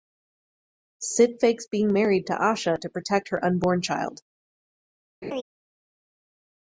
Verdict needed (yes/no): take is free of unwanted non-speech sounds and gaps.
no